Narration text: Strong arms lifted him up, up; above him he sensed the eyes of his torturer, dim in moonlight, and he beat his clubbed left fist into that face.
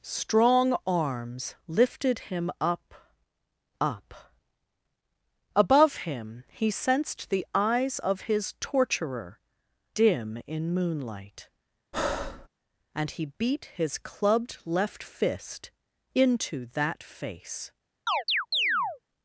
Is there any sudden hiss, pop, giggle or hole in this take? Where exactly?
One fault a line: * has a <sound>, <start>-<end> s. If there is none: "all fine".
* has a breath, 11.9-12.5 s
* has a chirp, 18.1-19.0 s